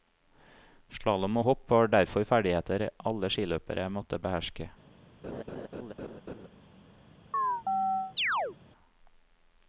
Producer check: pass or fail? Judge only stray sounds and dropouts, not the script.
fail